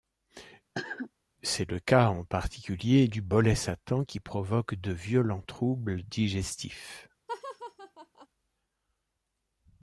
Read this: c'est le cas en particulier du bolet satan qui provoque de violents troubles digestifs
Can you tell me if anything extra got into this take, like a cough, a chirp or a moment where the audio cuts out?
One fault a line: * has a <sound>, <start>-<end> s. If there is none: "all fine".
* has a cough, 0.7-1.1 s
* has a laugh, 7.3-8.3 s